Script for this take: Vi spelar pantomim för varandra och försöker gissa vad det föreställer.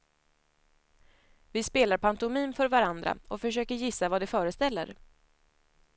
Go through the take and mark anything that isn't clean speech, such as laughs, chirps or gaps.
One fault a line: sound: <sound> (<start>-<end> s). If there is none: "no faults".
no faults